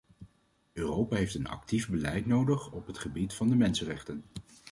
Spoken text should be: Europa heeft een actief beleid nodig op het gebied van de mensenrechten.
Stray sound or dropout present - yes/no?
no